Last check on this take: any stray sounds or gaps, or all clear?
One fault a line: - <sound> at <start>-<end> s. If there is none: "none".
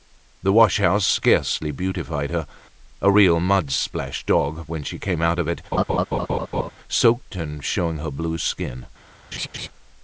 - laugh at 5.7-6.7 s
- laugh at 9.3-9.7 s